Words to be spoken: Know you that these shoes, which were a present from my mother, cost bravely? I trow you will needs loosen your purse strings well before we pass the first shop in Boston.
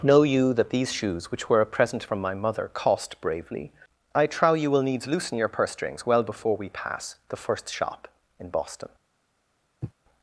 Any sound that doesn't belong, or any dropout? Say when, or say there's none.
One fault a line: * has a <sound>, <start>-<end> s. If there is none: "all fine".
* has a sniff, 9.8-9.9 s